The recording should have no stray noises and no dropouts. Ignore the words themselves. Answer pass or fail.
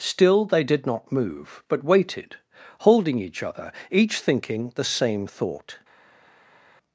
pass